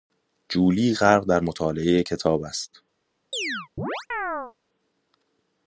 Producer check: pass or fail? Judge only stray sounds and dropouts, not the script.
fail